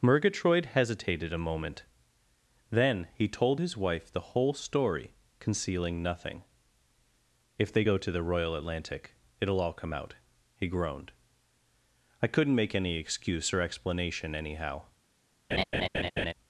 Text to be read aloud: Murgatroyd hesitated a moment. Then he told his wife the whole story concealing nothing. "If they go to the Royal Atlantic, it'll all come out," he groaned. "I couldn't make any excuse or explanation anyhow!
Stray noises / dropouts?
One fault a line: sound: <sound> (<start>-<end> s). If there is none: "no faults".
sound: laugh (15.5-16.3 s)